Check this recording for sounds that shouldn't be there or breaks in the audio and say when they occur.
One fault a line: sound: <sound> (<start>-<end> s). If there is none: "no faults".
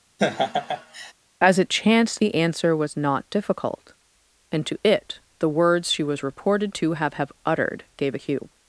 sound: laugh (0.2-1.1 s)